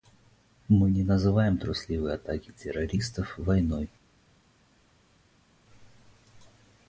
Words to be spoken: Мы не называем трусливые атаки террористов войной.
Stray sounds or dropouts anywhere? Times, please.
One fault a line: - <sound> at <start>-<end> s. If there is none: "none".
none